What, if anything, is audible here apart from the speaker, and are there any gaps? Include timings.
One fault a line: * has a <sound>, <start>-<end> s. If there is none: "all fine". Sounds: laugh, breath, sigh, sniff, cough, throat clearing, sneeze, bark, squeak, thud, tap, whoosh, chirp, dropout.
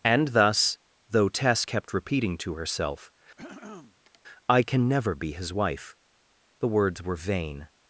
* has a throat clearing, 3.4-4.2 s